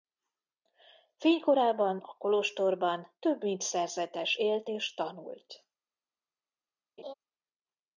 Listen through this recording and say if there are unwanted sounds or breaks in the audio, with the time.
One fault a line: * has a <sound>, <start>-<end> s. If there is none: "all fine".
* has a laugh, 7.0-7.1 s